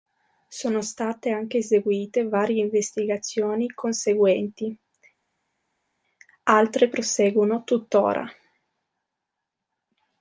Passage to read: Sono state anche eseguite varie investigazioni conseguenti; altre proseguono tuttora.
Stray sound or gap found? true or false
false